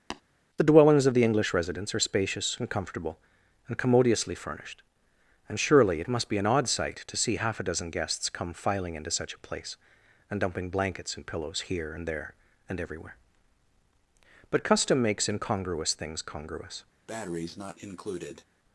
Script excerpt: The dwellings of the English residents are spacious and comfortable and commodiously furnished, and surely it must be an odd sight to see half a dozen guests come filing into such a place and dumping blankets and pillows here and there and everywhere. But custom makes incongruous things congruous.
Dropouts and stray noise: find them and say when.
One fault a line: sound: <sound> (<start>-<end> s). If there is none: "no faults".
sound: tap (0.1-0.2 s)
sound: breath (17.1-18.4 s)